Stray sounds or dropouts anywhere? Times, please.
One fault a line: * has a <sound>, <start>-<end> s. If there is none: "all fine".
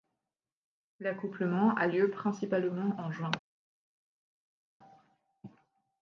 all fine